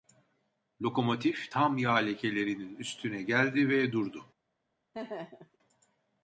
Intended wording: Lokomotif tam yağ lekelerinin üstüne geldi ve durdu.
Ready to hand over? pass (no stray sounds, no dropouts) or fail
fail